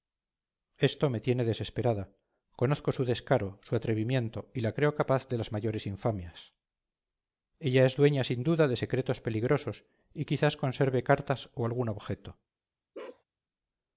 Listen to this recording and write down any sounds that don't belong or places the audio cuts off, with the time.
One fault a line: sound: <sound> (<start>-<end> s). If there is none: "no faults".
sound: bark (12.9-13.2 s)